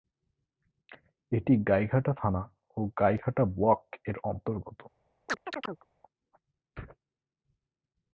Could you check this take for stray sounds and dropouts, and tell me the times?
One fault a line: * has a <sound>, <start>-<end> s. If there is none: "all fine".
* has a chirp, 5.3-5.9 s